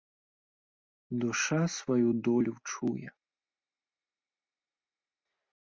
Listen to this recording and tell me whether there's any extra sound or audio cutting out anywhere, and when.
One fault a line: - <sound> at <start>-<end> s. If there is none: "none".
none